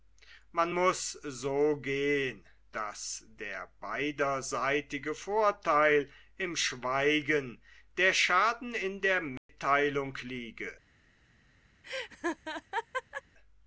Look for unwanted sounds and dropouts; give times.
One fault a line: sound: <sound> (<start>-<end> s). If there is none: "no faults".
sound: dropout (9.4-9.5 s)
sound: laugh (11.8-13.2 s)